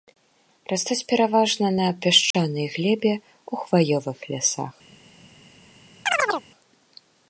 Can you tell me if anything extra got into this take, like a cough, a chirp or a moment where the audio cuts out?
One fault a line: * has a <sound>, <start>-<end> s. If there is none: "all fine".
* has a dropout, 2.3-2.3 s
* has a chirp, 6.1-6.5 s